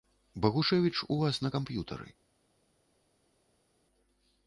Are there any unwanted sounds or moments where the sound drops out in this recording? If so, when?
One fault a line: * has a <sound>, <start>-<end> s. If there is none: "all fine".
all fine